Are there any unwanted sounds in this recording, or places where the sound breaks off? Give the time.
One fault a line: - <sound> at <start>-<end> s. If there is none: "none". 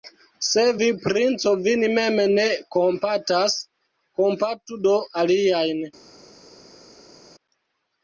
none